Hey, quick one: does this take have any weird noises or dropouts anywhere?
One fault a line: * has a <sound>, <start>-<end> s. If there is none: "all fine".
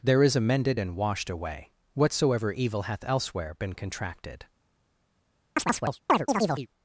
* has a chirp, 5.6-6.7 s